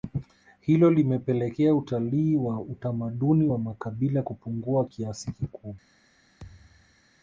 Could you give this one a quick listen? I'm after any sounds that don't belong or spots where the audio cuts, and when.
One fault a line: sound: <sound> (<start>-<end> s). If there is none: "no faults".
sound: thud (6.4-7.0 s)